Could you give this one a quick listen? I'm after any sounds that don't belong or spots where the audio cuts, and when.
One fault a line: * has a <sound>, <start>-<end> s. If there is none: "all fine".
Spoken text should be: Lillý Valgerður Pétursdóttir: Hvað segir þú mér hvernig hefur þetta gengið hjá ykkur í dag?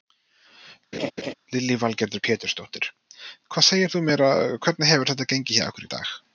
* has a laugh, 0.9-1.3 s